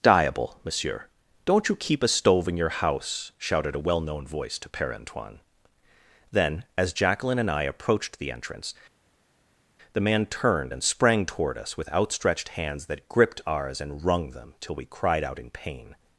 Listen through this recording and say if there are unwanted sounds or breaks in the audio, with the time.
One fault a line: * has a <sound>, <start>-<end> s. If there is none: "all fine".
all fine